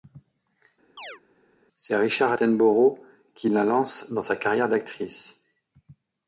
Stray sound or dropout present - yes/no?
yes